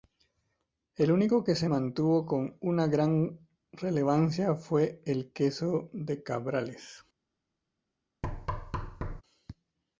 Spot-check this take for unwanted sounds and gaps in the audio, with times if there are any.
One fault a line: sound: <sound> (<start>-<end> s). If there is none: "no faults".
sound: thud (8.2-9.2 s)